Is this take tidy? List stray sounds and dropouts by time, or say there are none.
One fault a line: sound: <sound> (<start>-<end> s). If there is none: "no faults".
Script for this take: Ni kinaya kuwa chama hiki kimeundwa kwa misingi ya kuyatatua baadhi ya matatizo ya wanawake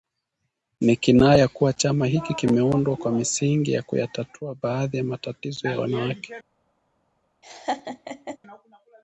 sound: laugh (7.4-8.4 s)